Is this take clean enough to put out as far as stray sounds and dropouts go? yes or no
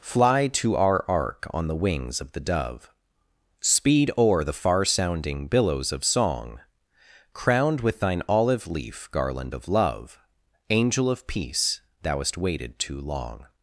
yes